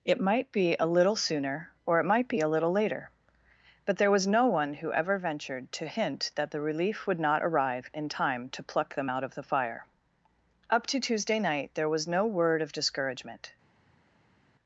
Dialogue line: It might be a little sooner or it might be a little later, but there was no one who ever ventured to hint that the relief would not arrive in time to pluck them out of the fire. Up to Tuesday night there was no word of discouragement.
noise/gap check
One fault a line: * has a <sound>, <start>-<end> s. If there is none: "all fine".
all fine